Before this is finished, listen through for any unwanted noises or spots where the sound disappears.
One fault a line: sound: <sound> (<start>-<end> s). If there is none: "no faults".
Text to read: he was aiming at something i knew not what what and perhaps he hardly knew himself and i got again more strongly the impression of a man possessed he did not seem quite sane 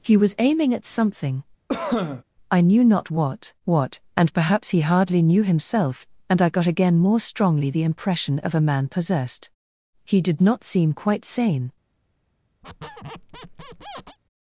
sound: cough (1.7-2.2 s)
sound: squeak (12.6-14.2 s)